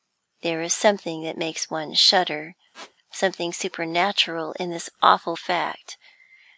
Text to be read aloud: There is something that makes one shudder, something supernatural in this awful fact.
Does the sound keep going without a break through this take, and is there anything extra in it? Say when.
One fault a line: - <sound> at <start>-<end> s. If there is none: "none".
- squeak at 2.7-2.9 s